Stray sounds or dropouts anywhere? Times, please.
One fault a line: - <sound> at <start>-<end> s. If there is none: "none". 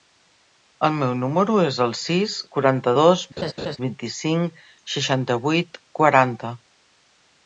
- laugh at 3.4-3.8 s